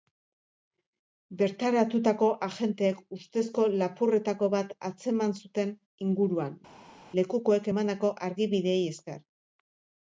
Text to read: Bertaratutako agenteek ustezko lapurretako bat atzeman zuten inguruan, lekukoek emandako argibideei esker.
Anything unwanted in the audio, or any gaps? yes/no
no